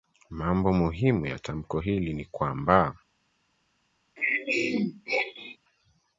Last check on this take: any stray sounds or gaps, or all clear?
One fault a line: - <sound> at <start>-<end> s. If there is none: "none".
- throat clearing at 4.2-5.6 s